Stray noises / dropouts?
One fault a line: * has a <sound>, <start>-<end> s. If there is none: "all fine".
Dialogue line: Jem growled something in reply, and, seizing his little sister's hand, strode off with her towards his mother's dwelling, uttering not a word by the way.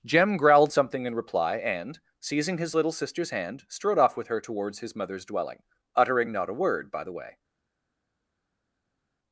all fine